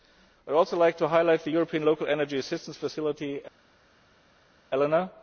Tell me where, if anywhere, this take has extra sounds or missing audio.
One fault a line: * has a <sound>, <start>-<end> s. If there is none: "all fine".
all fine